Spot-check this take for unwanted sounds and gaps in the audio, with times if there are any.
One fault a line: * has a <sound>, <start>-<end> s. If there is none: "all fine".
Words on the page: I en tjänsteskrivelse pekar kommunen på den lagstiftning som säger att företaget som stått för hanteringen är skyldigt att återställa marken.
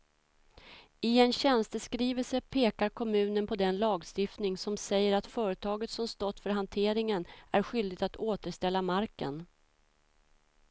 all fine